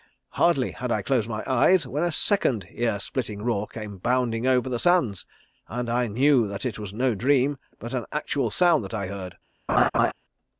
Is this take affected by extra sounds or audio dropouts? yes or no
yes